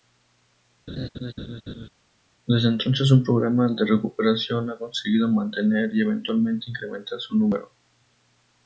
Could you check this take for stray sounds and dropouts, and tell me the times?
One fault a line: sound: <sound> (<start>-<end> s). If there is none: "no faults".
sound: laugh (0.9-1.9 s)